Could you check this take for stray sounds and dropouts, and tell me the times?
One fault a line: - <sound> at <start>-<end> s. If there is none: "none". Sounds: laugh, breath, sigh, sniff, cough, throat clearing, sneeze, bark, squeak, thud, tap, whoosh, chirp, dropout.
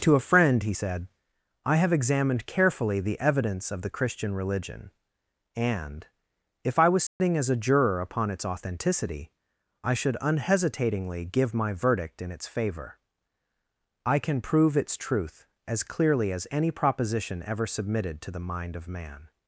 - dropout at 7.1-7.2 s